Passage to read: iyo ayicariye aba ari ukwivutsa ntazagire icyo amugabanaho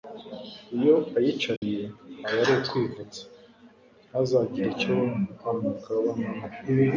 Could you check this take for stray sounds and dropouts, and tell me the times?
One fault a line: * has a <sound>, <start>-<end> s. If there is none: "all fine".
* has a dropout, 1.6-1.6 s